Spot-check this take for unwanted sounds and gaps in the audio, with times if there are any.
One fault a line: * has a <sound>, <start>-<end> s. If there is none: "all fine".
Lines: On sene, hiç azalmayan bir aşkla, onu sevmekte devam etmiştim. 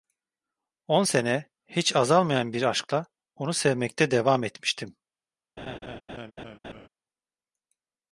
* has a laugh, 5.6-6.9 s